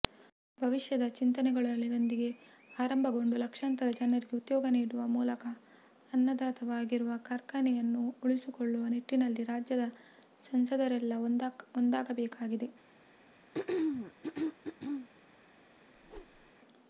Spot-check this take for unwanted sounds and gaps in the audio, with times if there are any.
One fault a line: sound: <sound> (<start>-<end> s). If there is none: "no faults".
sound: throat clearing (13.5-15.1 s)
sound: whoosh (15.9-16.5 s)